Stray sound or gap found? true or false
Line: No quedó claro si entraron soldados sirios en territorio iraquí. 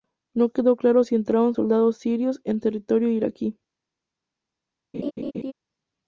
true